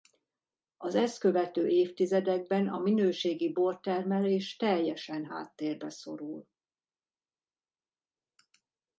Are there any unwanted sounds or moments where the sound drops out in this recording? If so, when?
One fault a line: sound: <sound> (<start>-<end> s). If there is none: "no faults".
no faults